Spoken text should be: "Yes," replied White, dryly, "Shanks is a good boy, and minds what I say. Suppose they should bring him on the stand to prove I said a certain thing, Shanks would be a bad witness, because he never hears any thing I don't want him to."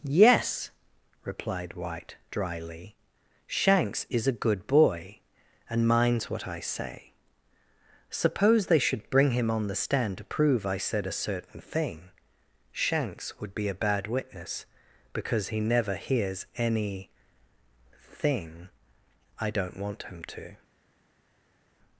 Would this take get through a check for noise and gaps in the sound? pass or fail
pass